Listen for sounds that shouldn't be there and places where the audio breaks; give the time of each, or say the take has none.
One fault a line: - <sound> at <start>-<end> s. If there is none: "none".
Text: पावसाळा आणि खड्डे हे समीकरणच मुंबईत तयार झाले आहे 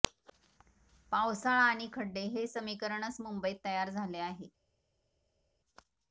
none